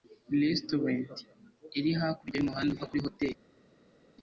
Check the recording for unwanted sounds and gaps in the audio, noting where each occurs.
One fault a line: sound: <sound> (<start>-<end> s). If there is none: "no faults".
no faults